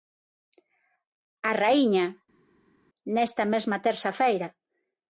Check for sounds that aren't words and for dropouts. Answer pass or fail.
pass